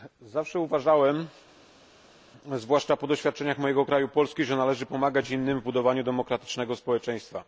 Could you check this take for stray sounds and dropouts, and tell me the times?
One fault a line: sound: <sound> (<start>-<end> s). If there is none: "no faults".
no faults